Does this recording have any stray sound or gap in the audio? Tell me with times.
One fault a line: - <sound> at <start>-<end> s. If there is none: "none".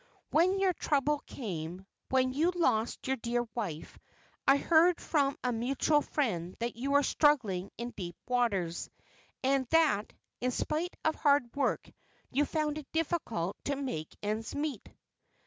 none